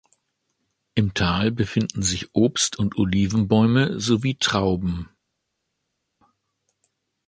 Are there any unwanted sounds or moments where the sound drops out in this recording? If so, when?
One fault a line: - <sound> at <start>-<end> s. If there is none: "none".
none